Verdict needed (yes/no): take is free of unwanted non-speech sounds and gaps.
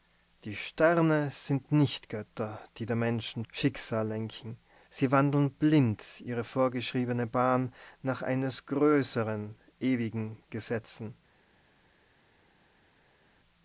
yes